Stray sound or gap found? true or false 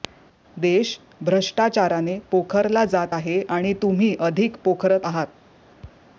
false